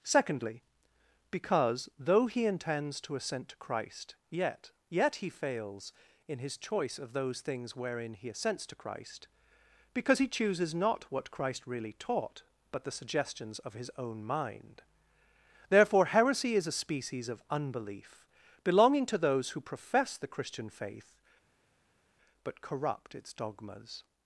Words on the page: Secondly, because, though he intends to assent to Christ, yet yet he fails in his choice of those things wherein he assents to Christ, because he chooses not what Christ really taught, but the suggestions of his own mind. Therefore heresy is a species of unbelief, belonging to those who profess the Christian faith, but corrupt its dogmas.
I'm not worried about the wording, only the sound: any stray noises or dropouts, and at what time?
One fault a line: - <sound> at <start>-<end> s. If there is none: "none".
none